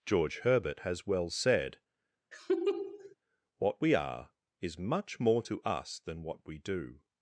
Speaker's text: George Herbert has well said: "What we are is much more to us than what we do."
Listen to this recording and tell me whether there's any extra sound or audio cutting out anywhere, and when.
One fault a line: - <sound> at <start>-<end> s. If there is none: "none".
- laugh at 2.3-3.2 s